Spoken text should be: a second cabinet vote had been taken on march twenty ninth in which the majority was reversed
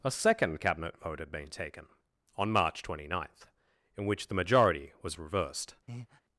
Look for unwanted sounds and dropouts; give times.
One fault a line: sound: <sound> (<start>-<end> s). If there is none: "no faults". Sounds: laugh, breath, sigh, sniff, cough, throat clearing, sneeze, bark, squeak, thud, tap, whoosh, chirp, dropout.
sound: breath (5.9-6.2 s)